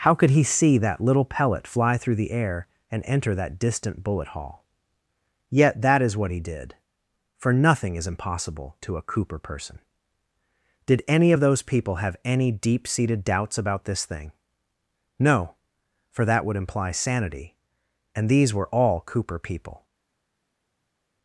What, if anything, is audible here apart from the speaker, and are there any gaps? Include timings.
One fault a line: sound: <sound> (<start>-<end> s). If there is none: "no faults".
no faults